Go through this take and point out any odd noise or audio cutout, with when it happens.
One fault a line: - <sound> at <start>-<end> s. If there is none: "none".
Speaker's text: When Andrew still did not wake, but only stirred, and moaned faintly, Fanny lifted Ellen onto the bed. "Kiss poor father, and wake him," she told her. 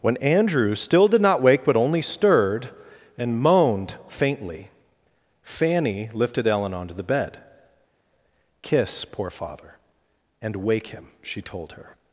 none